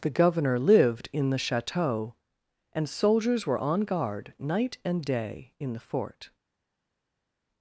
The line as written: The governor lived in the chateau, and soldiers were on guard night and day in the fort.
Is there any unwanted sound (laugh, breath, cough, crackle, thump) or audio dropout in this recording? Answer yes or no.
no